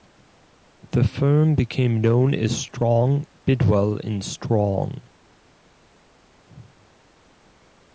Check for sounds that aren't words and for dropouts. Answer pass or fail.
pass